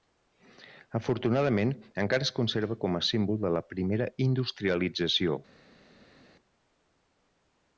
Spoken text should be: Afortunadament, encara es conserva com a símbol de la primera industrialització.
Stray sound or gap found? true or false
false